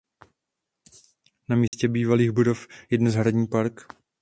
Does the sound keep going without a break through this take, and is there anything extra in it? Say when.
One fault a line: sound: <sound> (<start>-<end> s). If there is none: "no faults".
sound: dropout (1.7-1.7 s)